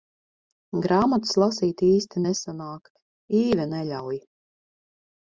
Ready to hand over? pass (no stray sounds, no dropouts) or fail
pass